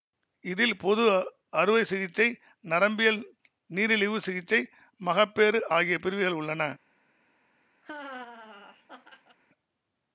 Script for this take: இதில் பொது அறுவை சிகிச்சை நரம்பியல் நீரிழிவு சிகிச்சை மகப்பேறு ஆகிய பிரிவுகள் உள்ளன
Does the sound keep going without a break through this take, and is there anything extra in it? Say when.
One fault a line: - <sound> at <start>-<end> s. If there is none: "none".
- laugh at 7.8-9.4 s